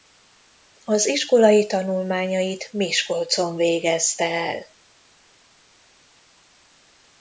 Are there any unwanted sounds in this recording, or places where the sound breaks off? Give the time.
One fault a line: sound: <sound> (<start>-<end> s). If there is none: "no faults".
no faults